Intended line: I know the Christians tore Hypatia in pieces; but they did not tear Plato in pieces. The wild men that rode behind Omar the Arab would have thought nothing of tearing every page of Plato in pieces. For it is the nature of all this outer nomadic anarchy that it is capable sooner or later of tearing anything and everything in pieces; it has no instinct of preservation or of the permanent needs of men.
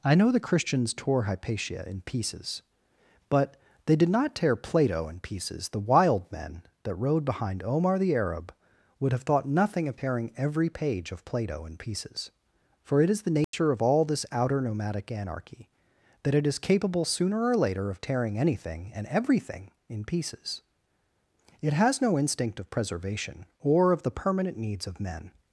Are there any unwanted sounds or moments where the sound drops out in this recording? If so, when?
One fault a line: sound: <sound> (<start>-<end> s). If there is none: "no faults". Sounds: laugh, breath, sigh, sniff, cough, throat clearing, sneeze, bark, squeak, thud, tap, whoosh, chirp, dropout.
sound: dropout (13.4-13.5 s)